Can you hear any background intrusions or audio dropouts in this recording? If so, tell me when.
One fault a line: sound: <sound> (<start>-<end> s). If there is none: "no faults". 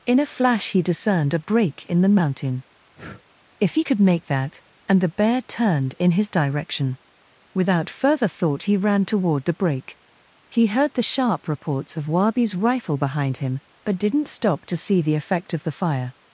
sound: breath (3.0-3.2 s)